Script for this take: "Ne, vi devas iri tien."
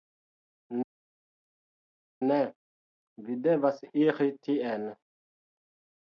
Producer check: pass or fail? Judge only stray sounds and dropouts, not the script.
pass